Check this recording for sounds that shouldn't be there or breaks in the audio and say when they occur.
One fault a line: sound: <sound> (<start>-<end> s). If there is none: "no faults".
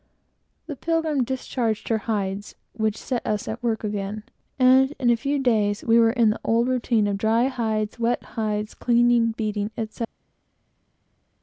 no faults